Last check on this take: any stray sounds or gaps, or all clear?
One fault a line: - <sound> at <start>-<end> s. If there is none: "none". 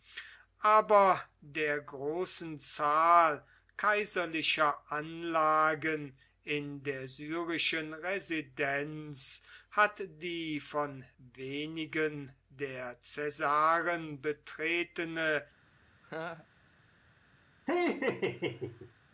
- laugh at 16.0-16.5 s
- laugh at 17.7-18.9 s